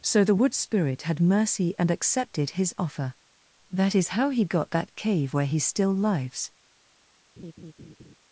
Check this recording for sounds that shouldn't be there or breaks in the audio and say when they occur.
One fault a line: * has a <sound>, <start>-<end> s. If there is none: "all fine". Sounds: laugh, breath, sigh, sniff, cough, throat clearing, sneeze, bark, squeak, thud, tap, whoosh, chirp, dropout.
* has a laugh, 7.4-8.2 s